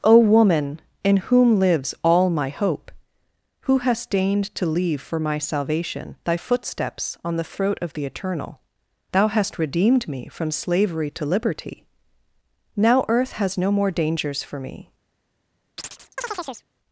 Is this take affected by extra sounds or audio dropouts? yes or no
yes